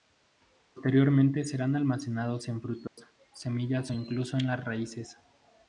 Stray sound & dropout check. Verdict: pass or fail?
fail